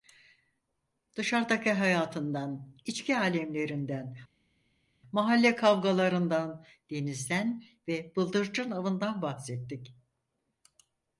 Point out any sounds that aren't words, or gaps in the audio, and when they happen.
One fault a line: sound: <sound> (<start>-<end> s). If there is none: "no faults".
no faults